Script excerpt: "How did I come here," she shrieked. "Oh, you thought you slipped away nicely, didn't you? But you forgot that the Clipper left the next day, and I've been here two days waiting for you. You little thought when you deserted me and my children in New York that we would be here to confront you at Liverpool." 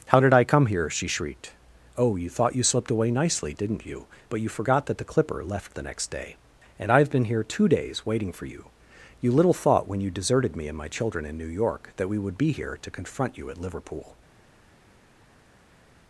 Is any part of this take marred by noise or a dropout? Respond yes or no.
no